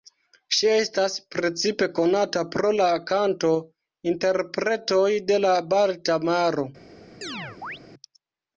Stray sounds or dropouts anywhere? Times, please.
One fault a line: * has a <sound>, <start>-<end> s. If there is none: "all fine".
* has a chirp, 7.2-7.8 s